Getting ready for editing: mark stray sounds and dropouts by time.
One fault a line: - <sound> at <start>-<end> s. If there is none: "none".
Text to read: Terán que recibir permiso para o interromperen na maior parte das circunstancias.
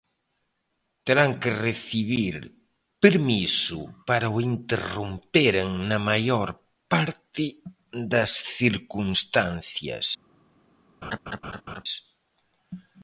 - laugh at 11.0-11.8 s